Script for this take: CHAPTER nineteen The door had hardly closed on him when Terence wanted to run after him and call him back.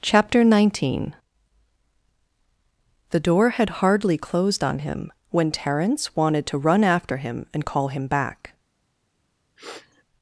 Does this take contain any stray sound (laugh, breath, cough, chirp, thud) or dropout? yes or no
yes